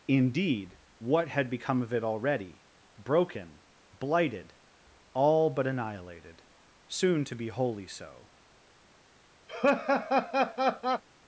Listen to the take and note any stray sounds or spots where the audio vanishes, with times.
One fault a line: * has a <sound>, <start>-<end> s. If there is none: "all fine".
* has a laugh, 9.5-11.0 s